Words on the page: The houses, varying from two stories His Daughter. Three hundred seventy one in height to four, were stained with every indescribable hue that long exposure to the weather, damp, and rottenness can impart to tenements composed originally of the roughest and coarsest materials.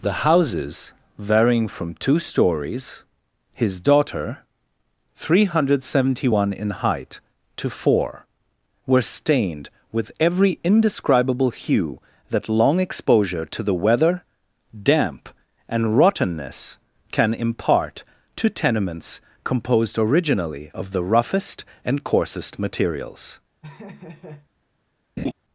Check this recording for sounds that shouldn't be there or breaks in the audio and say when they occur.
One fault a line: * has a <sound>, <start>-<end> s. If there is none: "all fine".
* has a laugh, 23.6-24.5 s
* has a laugh, 25.2-25.3 s